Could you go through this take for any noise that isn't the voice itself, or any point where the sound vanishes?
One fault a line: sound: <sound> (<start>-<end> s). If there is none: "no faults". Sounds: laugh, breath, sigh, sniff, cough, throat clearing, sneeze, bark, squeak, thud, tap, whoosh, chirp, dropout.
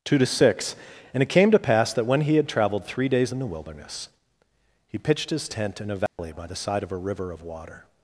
sound: dropout (6.1-6.2 s)